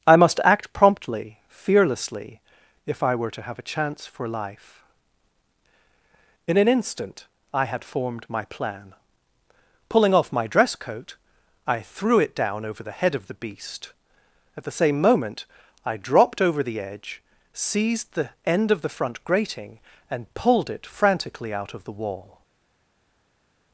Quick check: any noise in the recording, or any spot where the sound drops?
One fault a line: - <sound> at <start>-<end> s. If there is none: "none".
none